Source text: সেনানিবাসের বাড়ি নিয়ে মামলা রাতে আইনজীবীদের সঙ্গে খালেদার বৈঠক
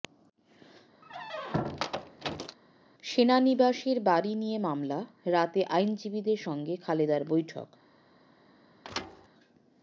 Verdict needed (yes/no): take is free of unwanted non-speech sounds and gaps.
no